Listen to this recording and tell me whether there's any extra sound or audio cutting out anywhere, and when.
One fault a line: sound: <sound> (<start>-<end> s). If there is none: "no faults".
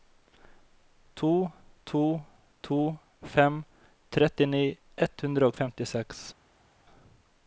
no faults